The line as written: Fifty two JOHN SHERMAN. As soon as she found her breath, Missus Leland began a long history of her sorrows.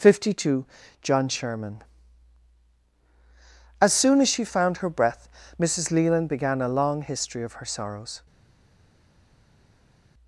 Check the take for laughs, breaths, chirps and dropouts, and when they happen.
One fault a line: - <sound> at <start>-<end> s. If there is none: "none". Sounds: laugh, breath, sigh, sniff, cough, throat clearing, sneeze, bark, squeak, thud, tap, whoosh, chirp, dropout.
none